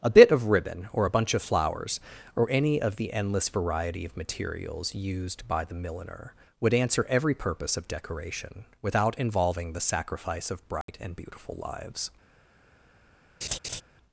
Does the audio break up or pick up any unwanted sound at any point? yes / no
yes